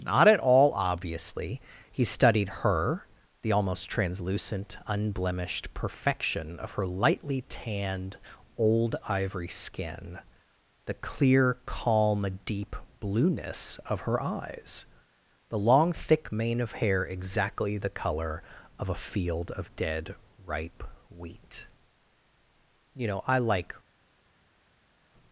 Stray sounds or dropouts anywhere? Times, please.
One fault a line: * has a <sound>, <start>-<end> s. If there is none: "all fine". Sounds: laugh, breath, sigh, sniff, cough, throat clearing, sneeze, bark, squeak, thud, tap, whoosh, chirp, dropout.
all fine